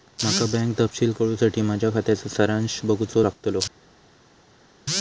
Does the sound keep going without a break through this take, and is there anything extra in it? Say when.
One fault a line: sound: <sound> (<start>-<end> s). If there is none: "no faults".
no faults